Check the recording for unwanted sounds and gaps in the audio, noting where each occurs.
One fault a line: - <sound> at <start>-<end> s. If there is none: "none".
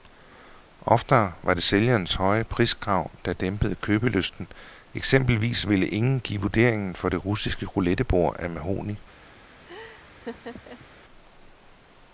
- laugh at 9.7-10.9 s